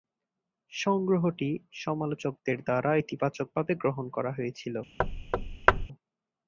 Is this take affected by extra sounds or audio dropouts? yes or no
yes